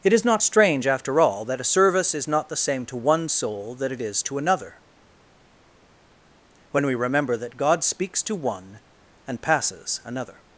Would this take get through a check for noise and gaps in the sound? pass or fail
pass